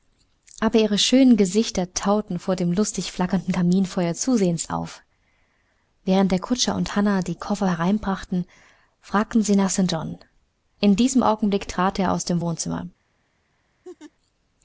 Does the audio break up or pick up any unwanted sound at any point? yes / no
yes